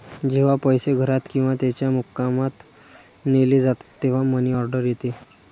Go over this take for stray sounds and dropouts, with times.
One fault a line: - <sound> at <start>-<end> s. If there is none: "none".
- dropout at 3.8-4.0 s